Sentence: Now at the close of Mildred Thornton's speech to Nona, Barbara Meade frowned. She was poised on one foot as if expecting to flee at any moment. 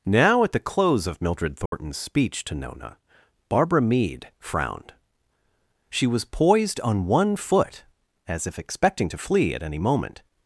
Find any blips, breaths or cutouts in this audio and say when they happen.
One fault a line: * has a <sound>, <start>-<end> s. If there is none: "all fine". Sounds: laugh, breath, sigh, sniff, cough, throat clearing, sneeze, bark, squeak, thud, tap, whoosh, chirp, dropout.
* has a dropout, 1.7-1.7 s